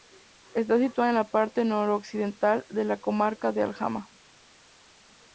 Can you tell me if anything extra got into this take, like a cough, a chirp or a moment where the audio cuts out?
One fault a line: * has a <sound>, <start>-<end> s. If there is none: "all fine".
all fine